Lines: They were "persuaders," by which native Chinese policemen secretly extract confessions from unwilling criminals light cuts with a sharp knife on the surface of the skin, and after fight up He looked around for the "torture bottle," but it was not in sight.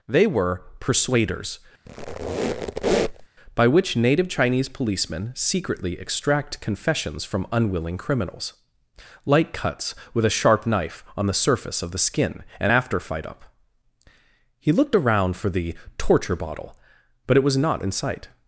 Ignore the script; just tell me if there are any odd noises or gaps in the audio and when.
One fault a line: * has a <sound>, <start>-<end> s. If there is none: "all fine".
* has a squeak, 1.9-3.3 s